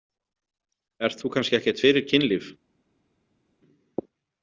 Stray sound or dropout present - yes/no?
no